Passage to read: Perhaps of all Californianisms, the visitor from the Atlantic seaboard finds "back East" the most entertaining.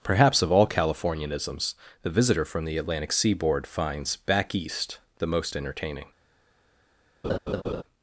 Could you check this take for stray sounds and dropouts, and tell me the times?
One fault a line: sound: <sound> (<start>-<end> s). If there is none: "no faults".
sound: laugh (7.2-7.8 s)